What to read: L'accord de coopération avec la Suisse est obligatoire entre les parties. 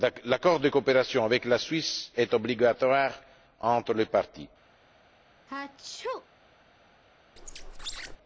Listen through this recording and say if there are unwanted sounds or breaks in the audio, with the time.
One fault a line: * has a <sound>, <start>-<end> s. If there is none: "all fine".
* has a sneeze, 5.5-6.3 s
* has a squeak, 7.4-8.2 s